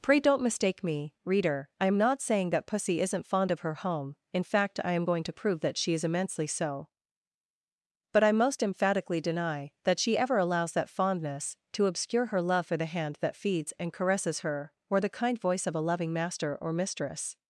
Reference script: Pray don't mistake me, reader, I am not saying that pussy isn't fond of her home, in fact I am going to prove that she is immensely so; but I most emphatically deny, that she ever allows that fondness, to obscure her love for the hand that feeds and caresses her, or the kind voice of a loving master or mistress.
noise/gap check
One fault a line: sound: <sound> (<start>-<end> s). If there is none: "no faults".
no faults